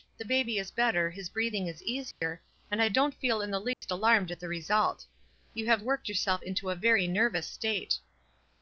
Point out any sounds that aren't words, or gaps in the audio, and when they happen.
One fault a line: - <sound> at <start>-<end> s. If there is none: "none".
- dropout at 2.1-2.2 s
- dropout at 3.7-3.8 s